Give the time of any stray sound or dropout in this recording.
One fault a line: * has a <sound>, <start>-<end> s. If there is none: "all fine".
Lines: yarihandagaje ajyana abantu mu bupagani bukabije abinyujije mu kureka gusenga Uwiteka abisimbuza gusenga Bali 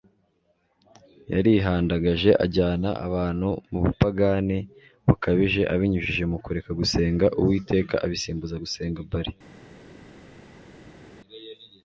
all fine